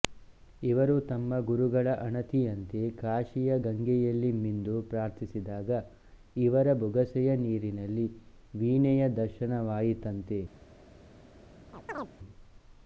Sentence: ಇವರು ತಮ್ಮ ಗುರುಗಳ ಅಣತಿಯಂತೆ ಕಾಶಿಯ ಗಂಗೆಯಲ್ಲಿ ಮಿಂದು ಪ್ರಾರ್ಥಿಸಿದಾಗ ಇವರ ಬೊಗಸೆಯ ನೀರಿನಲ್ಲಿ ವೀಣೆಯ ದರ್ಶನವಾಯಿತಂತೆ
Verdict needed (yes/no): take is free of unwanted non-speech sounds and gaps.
no